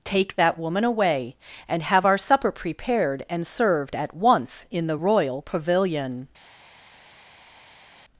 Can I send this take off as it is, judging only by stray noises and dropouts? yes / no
yes